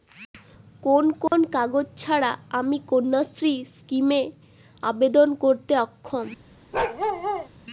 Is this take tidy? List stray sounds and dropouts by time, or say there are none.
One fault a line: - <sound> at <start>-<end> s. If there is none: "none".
- dropout at 1.3-1.3 s
- bark at 6.7-7.5 s